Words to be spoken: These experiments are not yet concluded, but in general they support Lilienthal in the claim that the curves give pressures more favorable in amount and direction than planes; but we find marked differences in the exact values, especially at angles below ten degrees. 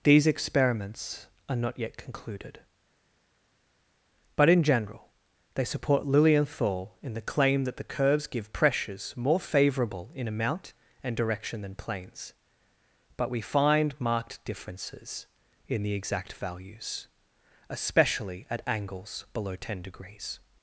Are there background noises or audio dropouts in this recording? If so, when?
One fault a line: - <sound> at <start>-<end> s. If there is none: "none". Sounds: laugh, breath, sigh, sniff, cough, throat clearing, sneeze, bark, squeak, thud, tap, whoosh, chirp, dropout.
none